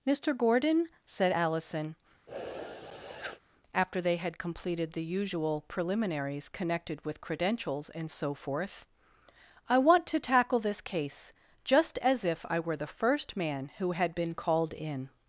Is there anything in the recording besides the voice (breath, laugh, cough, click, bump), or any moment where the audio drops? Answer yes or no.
yes